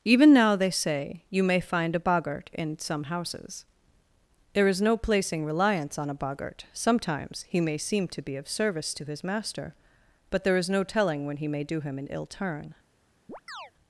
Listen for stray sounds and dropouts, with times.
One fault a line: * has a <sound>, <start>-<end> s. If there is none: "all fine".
* has a chirp, 13.3-13.7 s